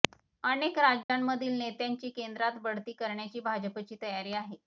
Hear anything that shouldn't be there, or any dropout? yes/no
yes